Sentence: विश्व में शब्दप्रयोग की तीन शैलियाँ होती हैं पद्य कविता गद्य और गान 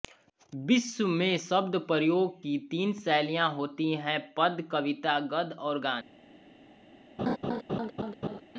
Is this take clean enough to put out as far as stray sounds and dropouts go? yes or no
no